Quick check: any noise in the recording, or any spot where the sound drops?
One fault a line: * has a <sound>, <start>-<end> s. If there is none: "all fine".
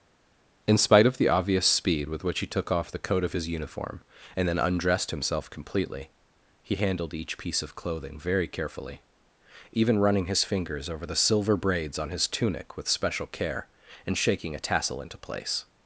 all fine